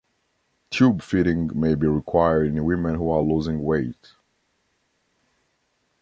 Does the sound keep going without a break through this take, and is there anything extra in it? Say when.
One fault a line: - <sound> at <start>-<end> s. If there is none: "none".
none